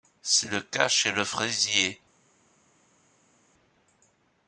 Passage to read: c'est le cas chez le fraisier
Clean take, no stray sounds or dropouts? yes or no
yes